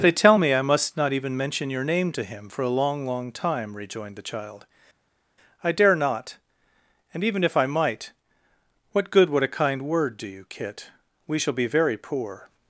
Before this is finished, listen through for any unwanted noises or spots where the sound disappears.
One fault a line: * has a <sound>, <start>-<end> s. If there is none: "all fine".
all fine